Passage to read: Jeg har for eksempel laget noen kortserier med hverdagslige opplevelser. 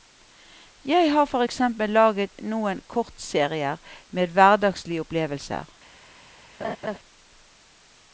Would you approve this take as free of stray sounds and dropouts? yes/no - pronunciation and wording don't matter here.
no